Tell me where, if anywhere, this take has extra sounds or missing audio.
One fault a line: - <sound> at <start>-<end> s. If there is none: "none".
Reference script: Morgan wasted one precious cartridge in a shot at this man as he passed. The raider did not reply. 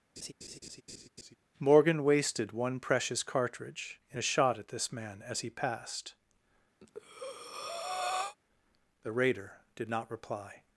- laugh at 0.2-1.4 s
- breath at 6.8-8.4 s